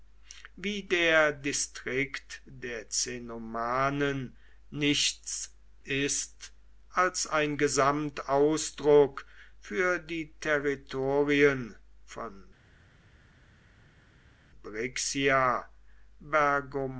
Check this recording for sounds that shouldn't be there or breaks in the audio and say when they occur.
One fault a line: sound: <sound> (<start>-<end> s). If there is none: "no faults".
no faults